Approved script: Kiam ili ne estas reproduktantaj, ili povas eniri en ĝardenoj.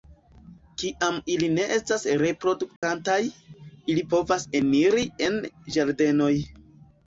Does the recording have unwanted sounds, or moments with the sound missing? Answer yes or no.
yes